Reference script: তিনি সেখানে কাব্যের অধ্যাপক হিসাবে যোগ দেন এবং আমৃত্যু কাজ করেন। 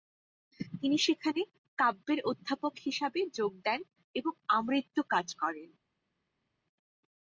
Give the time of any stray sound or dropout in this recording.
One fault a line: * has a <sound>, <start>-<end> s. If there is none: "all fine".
all fine